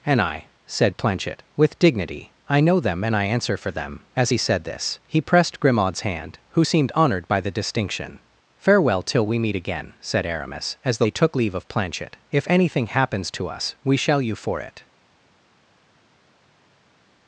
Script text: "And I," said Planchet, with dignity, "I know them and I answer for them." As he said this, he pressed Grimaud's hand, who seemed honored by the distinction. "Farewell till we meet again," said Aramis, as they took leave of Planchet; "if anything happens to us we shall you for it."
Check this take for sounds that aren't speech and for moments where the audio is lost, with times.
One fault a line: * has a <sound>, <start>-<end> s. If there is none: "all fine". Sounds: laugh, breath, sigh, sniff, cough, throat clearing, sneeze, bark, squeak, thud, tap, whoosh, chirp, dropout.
all fine